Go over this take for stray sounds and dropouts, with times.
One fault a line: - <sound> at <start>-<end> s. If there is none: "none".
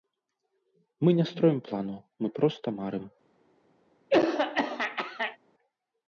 - throat clearing at 4.1-5.4 s